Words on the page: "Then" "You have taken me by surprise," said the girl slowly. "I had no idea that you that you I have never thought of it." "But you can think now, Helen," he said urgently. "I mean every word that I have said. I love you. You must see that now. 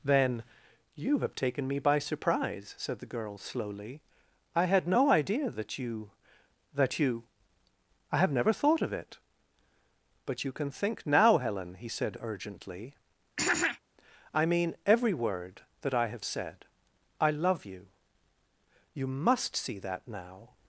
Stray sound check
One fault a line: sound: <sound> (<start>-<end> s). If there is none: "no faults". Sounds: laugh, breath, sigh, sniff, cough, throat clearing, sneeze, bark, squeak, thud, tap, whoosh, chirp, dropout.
sound: throat clearing (13.4-13.8 s)